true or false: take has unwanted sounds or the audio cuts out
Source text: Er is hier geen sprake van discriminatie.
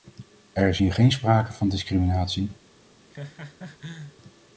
true